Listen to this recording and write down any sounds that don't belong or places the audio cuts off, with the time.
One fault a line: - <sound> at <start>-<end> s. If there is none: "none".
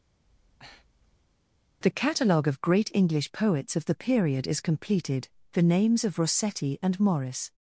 - breath at 0.2-1.4 s